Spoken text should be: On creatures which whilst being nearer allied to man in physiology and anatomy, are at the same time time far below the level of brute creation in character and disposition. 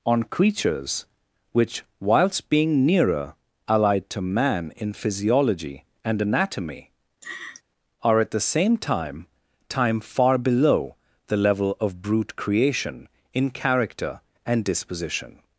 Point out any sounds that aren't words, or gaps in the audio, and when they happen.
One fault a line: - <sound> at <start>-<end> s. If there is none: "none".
- laugh at 7.2-7.6 s